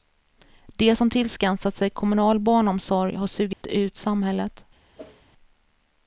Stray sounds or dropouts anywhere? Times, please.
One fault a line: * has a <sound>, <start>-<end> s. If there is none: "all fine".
* has a dropout, 3.5-3.6 s
* has a whoosh, 5.0-5.2 s